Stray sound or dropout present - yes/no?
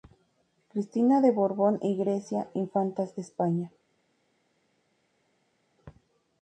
no